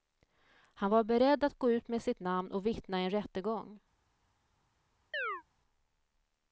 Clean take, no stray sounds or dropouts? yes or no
no